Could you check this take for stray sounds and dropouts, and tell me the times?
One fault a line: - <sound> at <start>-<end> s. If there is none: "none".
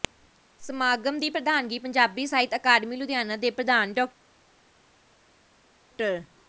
none